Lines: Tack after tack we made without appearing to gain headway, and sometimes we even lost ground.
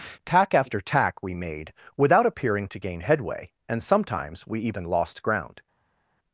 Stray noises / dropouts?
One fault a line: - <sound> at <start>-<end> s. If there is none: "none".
none